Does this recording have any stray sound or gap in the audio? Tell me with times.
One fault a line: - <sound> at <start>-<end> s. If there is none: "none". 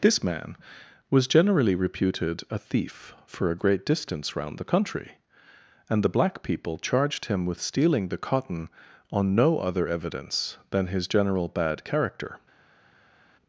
none